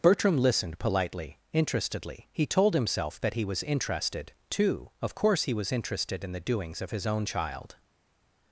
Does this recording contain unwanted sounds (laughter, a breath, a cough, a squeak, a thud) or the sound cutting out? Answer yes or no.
no